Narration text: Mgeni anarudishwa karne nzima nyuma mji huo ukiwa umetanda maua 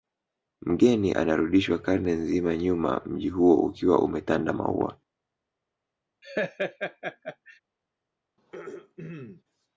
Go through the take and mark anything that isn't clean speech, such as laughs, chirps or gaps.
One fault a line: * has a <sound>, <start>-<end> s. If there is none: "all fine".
* has a laugh, 6.2-7.6 s
* has a throat clearing, 8.4-9.4 s